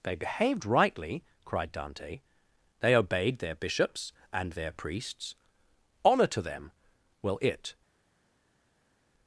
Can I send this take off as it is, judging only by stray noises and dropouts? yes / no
yes